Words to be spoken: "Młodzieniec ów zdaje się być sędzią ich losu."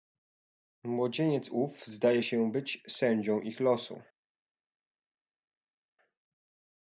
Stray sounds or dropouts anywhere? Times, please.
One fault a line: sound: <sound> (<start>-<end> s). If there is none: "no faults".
no faults